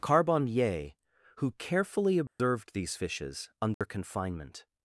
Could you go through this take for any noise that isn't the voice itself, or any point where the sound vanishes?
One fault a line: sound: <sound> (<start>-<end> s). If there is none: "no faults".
sound: dropout (2.3-2.4 s)
sound: dropout (3.7-3.8 s)